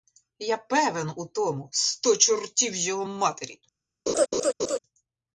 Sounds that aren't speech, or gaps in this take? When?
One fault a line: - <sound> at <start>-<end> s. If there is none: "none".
- laugh at 4.1-4.8 s